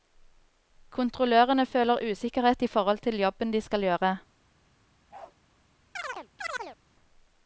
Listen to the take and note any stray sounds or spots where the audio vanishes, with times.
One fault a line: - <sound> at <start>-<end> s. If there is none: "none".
- bark at 5.1-5.4 s
- chirp at 6.0-6.8 s